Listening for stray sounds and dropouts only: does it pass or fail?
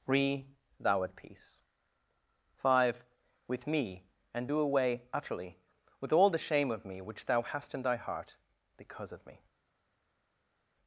pass